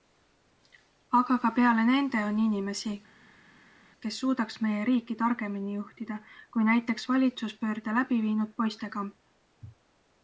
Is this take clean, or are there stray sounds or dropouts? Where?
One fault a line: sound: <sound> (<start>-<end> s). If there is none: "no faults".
no faults